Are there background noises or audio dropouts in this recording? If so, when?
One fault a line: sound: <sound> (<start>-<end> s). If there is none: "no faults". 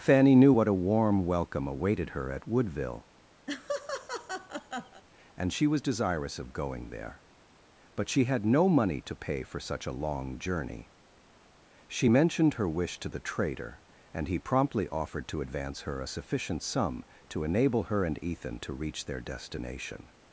sound: laugh (3.5-5.0 s)